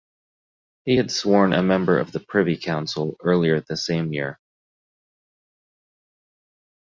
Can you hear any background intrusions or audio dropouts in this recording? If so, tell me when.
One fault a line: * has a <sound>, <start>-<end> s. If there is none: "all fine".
all fine